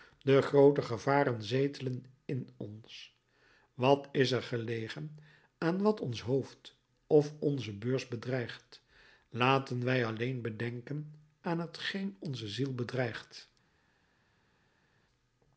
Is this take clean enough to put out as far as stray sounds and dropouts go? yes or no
yes